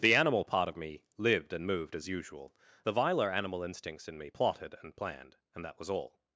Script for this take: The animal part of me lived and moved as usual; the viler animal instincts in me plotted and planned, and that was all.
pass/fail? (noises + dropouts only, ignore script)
pass